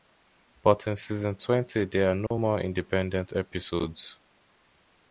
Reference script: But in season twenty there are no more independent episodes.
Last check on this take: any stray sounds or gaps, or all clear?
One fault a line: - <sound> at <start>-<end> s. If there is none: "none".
- dropout at 2.3-2.3 s